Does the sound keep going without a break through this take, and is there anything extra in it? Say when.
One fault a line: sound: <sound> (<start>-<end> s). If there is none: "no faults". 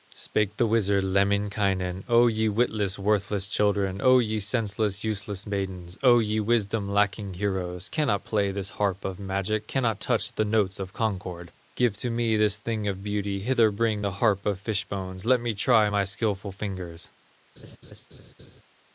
sound: laugh (17.6-18.6 s)